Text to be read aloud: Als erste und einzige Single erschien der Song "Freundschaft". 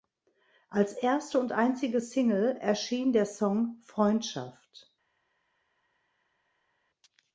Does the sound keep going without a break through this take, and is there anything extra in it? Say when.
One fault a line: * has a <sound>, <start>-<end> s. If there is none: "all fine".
all fine